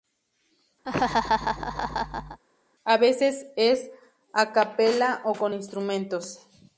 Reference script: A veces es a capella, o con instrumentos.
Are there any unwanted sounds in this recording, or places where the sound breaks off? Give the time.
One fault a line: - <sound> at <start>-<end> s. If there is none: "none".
- laugh at 0.8-2.4 s